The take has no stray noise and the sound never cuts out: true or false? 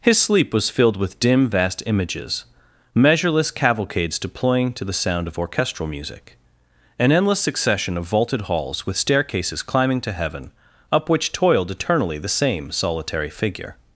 true